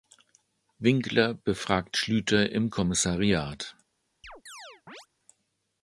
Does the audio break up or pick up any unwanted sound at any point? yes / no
yes